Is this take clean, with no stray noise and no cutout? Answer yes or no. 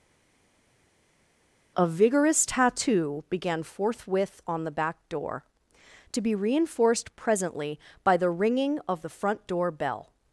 yes